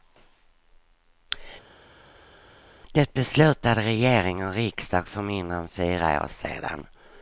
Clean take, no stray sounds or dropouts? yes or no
yes